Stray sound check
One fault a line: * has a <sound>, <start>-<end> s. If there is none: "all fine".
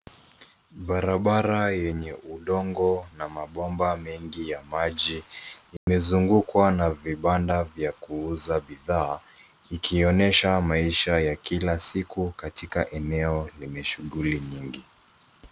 * has a dropout, 5.8-5.9 s